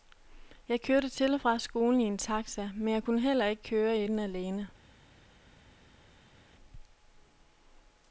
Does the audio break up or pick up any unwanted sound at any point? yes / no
no